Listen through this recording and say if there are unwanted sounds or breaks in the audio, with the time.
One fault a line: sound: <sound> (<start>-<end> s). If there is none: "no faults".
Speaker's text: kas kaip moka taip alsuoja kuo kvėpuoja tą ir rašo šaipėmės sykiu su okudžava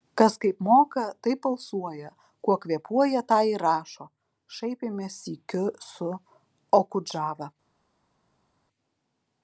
no faults